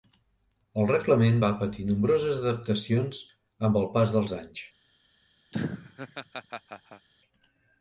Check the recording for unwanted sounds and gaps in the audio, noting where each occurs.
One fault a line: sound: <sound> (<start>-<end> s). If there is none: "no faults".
sound: laugh (5.5-7.1 s)